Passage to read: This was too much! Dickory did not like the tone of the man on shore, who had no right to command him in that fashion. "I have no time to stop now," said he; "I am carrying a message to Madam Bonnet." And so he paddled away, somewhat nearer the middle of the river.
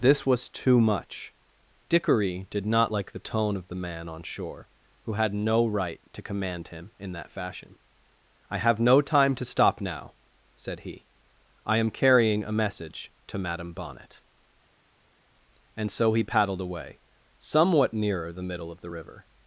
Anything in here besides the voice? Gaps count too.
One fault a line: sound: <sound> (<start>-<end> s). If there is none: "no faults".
no faults